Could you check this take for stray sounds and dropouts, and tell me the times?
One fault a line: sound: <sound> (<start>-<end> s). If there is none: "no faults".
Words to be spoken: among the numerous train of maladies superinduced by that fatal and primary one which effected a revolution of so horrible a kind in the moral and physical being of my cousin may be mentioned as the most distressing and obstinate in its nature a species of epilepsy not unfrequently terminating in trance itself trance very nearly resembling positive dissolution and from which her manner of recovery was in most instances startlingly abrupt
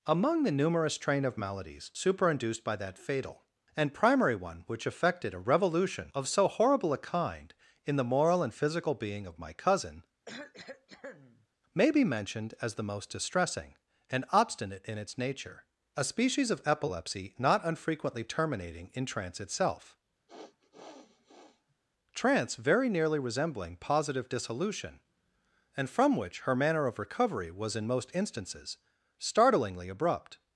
sound: cough (10.3-11.5 s)
sound: sniff (20.3-21.8 s)